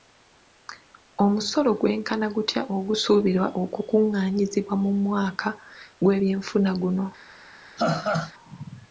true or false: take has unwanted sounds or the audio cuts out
true